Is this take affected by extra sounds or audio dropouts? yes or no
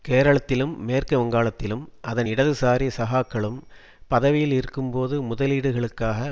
no